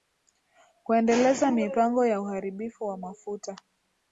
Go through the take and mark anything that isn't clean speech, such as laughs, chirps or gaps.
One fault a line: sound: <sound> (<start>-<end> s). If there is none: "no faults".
no faults